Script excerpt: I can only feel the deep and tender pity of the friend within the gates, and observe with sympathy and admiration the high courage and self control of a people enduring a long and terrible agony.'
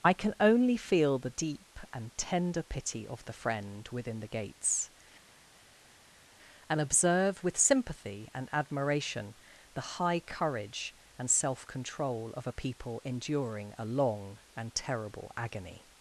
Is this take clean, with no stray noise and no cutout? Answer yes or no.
yes